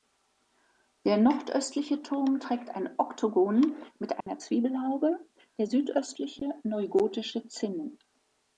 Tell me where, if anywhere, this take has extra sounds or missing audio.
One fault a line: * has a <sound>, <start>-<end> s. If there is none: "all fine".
* has a dropout, 4.2-4.3 s